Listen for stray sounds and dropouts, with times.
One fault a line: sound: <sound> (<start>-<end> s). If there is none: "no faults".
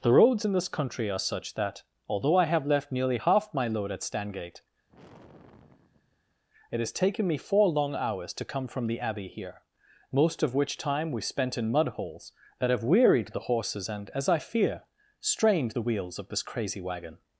sound: sigh (4.9-6.4 s)